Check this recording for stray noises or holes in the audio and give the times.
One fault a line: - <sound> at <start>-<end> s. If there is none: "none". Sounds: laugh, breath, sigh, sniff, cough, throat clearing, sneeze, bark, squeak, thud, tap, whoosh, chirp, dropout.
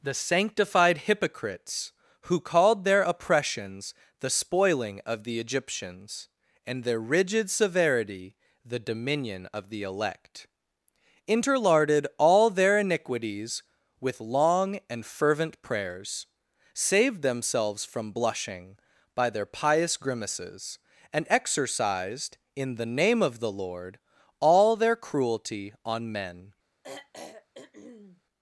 - throat clearing at 26.8-28.2 s